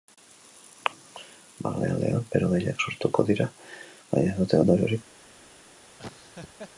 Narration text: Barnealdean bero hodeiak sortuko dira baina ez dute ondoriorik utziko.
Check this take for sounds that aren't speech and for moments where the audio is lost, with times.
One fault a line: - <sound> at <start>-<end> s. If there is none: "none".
- laugh at 6.0-6.7 s